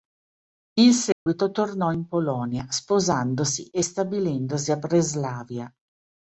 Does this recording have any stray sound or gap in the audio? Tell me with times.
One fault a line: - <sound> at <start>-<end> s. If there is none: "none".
- dropout at 1.1-1.3 s